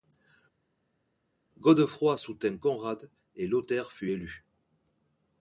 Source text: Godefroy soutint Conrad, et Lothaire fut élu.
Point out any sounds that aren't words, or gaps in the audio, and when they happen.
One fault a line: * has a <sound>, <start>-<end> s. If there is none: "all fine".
all fine